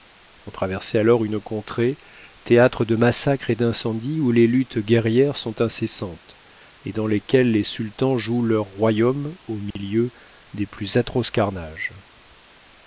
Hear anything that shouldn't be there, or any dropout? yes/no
yes